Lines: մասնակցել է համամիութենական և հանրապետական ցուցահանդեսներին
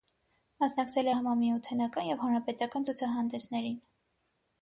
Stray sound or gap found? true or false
false